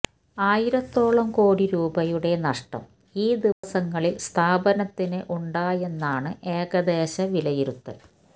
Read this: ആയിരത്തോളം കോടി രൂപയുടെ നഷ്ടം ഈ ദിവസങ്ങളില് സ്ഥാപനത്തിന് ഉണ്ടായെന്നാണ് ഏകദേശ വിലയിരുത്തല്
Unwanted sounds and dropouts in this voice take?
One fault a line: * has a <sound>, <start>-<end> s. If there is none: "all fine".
* has a dropout, 3.5-3.6 s